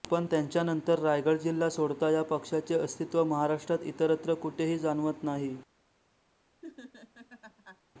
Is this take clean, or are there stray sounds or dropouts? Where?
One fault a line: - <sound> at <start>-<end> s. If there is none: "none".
- laugh at 6.6-7.8 s